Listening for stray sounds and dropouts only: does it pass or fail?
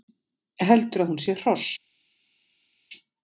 pass